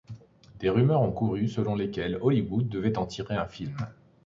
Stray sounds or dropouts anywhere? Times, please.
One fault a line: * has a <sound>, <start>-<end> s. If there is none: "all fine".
all fine